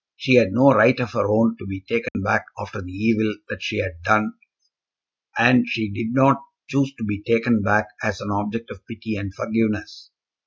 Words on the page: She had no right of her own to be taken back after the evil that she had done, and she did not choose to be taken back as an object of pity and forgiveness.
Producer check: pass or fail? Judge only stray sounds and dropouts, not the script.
fail